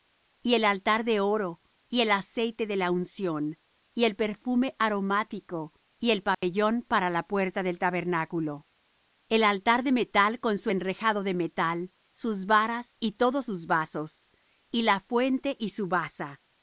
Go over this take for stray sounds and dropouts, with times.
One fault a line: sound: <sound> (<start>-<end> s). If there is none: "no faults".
sound: dropout (6.3-6.4 s)